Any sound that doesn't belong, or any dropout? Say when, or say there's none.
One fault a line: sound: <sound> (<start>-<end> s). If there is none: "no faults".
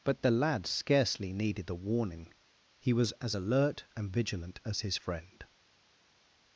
no faults